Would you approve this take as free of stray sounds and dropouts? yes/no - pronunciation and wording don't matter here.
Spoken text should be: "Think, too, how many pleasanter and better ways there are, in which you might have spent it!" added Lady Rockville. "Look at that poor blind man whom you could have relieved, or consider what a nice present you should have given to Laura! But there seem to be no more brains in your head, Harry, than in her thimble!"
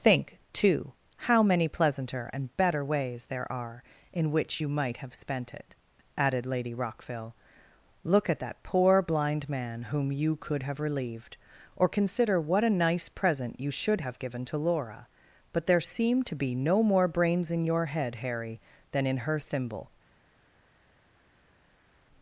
yes